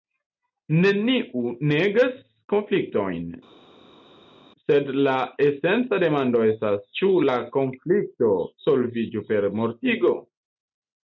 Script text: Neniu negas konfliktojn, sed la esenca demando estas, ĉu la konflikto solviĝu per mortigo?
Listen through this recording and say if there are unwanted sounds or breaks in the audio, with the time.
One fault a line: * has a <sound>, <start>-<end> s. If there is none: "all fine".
all fine